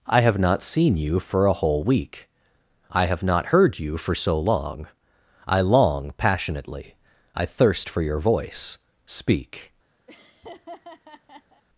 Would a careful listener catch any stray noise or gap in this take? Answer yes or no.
yes